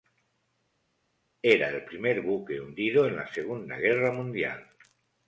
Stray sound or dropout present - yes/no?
no